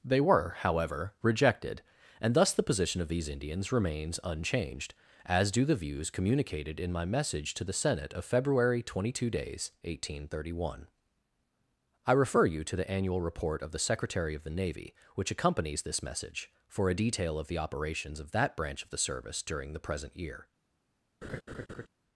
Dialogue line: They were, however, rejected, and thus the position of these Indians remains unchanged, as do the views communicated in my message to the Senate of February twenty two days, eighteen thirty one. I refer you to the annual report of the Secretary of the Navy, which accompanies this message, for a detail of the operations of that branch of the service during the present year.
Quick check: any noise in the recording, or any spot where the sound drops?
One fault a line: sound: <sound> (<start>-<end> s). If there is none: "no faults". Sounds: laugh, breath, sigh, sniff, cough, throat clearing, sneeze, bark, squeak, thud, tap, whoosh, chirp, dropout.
sound: laugh (21.2-21.9 s)